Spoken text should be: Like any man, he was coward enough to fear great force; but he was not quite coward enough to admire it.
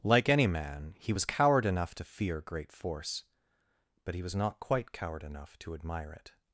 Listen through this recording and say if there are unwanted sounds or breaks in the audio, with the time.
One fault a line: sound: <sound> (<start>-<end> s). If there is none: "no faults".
no faults